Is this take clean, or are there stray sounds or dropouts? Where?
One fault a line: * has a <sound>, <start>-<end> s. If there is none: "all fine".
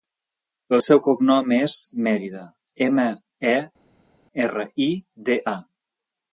all fine